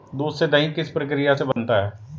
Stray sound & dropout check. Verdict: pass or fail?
fail